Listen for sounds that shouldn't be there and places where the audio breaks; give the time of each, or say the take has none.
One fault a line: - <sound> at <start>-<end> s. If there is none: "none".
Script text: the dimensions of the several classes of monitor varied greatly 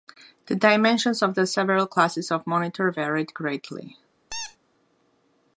- squeak at 4.3-4.6 s